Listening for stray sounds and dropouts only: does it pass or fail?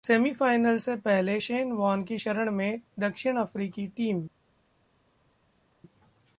pass